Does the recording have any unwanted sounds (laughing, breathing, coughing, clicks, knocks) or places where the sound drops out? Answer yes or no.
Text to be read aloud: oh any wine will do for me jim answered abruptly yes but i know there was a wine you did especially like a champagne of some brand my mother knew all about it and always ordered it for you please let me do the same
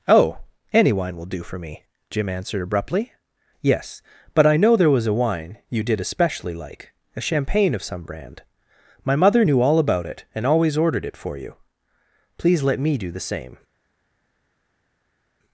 no